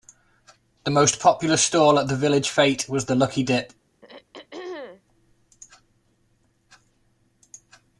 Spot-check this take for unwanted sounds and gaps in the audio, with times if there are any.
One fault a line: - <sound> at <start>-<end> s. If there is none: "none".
- throat clearing at 4.0-5.0 s